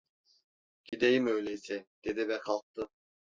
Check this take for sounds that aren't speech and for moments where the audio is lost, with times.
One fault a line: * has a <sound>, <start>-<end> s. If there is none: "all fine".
* has a dropout, 0.9-0.9 s